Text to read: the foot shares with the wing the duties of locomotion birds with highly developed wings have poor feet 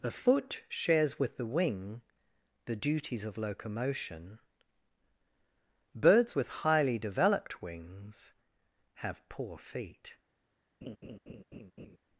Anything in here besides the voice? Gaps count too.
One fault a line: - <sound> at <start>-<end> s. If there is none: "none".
- laugh at 10.8-12.0 s